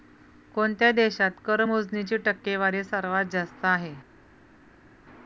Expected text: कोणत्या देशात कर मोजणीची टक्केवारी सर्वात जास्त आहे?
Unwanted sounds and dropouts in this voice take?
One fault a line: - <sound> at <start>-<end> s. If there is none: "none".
none